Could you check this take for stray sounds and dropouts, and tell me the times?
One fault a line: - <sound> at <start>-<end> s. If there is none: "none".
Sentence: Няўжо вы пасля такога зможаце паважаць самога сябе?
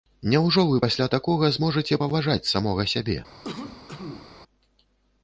- cough at 3.4-4.4 s